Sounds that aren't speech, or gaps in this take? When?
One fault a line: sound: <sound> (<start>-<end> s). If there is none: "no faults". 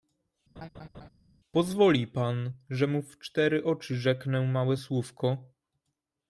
sound: laugh (0.6-1.1 s)